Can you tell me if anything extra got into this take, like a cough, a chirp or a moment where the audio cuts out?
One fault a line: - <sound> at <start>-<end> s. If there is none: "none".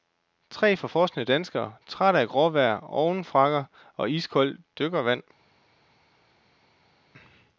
none